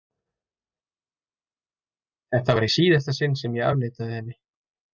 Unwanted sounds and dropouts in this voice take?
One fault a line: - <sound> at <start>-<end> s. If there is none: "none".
none